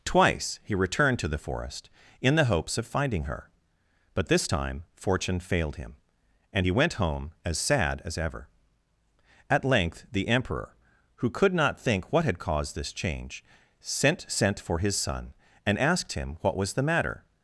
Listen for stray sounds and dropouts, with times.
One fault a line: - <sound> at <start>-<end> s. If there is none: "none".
none